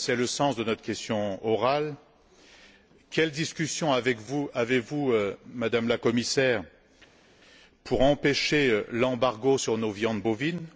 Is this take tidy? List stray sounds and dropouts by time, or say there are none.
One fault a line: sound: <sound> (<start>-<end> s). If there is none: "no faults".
no faults